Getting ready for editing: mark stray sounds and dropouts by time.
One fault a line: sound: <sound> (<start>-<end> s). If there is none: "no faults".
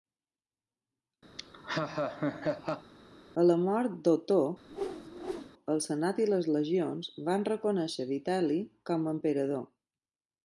sound: laugh (1.4-2.9 s)
sound: whoosh (4.7-5.5 s)